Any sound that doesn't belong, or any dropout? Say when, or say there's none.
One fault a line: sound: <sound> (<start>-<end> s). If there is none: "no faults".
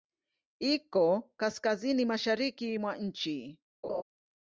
sound: laugh (3.8-4.0 s)